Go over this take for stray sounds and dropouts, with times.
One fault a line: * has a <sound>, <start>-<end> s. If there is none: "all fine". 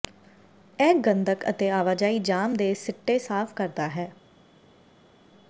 all fine